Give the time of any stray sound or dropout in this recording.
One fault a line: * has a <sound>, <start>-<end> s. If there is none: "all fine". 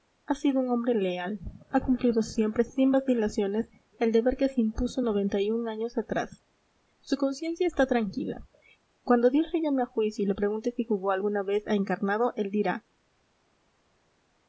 all fine